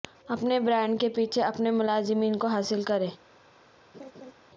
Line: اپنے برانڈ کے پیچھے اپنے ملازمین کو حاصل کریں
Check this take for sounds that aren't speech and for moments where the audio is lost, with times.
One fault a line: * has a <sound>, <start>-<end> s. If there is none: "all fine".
* has a laugh, 3.9-4.3 s